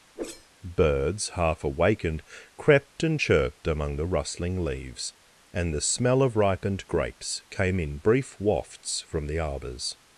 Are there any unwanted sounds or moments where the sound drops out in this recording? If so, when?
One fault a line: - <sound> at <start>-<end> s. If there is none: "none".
- whoosh at 0.2-0.5 s